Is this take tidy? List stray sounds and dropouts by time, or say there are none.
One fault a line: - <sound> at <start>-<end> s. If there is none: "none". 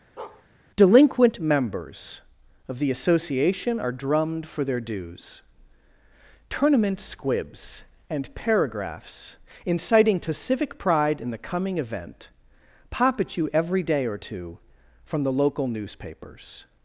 - bark at 0.2-0.5 s